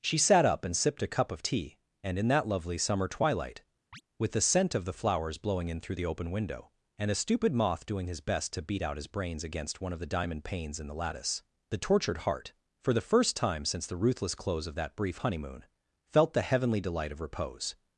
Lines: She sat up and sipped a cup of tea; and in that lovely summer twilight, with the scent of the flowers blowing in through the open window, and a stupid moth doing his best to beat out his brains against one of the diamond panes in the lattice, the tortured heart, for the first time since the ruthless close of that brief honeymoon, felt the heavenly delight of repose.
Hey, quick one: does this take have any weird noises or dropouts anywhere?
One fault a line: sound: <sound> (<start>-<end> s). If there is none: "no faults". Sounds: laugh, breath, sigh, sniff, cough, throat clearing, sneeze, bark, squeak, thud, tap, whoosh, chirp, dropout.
sound: chirp (3.9-4.0 s)